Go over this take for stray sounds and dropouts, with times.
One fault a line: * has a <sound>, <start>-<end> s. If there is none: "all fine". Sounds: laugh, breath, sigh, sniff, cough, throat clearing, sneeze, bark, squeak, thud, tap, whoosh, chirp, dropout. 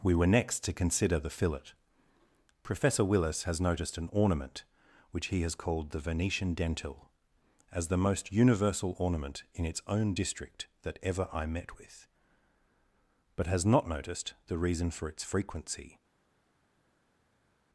all fine